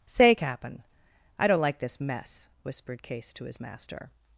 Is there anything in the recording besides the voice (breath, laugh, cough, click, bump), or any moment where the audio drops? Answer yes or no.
no